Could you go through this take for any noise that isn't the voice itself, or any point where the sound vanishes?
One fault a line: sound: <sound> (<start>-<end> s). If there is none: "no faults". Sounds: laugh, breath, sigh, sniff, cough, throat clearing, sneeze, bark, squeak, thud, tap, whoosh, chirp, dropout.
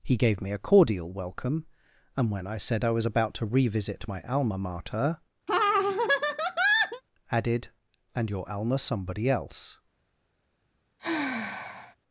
sound: laugh (5.5-7.0 s)
sound: sigh (11.0-12.0 s)